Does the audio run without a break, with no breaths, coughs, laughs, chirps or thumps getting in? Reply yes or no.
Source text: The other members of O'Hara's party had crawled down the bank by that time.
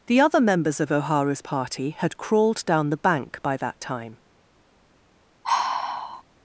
no